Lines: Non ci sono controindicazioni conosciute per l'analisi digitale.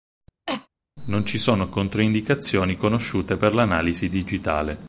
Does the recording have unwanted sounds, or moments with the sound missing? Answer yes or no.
yes